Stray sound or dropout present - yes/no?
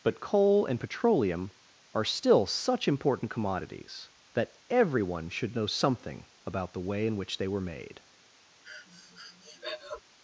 yes